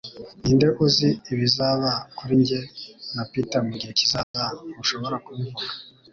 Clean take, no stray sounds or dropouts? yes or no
no